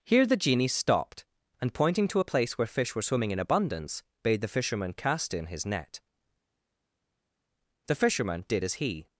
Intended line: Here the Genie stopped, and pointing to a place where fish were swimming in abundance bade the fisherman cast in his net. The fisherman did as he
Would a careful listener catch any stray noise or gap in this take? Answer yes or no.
no